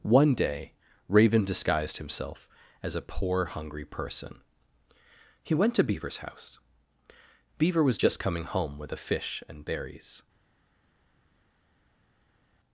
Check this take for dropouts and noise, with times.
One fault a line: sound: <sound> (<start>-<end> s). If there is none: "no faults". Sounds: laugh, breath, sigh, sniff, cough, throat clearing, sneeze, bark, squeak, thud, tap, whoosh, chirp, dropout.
no faults